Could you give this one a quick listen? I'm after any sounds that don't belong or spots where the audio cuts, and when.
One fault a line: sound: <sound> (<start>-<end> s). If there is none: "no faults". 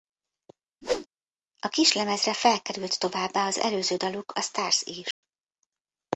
sound: whoosh (0.8-1.1 s)
sound: dropout (5.1-5.2 s)